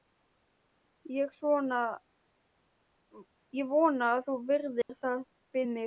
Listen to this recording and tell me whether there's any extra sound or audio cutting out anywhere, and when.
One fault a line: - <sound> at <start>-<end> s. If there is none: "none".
- dropout at 4.8-4.9 s